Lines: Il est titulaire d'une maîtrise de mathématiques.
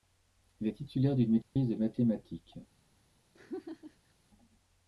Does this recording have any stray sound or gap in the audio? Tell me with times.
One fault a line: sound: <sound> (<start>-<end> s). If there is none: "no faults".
sound: dropout (1.4-1.6 s)
sound: laugh (3.3-4.1 s)